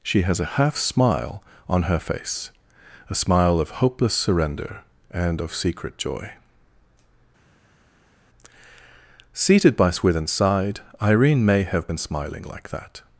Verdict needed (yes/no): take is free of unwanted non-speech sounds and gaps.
yes